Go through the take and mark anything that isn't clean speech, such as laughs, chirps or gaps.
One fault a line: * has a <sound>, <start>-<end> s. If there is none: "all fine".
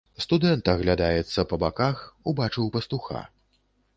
all fine